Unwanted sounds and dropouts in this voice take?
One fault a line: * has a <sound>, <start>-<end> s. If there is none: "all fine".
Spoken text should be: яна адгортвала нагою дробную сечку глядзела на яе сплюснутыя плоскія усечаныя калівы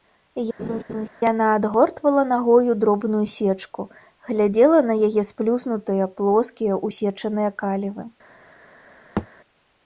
* has a laugh, 0.6-1.1 s
* has a thud, 9.2-9.3 s